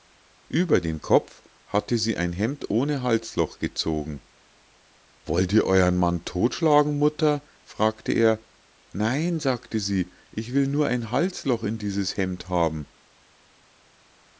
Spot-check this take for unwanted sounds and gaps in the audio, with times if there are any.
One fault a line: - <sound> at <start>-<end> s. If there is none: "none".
none